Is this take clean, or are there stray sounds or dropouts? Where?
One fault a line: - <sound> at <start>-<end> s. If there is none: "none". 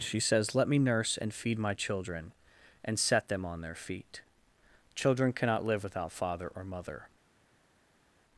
none